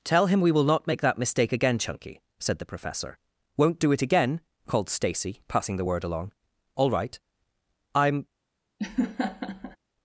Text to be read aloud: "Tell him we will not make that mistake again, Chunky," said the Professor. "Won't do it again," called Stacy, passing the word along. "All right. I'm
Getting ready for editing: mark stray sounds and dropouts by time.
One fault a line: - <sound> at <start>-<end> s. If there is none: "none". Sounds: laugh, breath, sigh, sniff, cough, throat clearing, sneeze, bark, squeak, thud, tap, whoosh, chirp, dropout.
- laugh at 8.8-9.8 s